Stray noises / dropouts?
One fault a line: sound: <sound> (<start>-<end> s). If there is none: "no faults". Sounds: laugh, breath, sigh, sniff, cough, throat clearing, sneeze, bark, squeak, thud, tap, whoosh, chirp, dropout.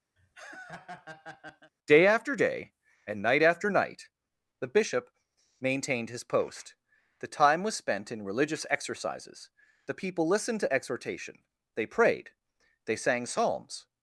sound: laugh (0.2-1.7 s)